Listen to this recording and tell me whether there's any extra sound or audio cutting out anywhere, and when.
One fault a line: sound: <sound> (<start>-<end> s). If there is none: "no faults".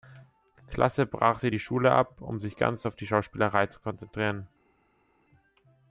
no faults